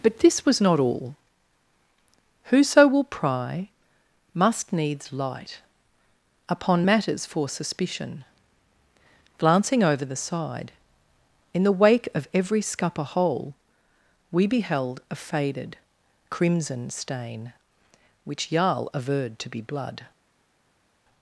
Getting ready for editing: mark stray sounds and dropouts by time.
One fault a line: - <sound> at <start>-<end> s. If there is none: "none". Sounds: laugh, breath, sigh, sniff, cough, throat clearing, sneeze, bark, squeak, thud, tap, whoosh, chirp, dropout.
none